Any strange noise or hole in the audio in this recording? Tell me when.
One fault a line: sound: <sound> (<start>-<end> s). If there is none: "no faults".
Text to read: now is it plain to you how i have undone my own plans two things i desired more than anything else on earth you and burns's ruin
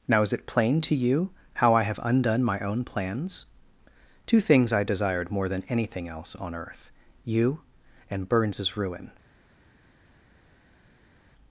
no faults